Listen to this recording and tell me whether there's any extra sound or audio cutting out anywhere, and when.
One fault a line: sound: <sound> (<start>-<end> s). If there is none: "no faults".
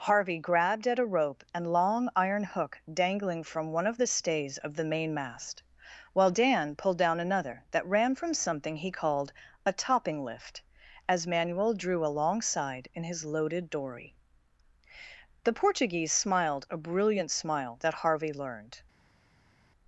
no faults